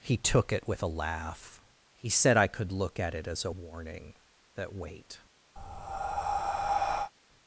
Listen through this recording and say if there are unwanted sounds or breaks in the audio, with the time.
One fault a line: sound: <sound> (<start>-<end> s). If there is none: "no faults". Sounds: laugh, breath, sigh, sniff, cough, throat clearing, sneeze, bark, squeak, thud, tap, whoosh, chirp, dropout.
sound: breath (5.6-7.1 s)